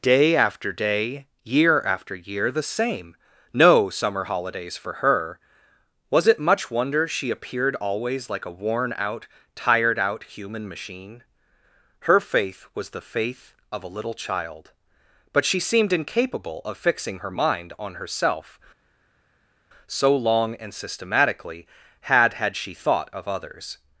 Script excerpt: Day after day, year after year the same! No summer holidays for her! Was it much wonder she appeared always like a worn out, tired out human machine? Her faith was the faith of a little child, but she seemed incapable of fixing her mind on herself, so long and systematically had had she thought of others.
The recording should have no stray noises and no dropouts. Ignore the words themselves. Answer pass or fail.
pass